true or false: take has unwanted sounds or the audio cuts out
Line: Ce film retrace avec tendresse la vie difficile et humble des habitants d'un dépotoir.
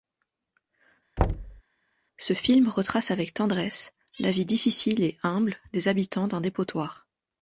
true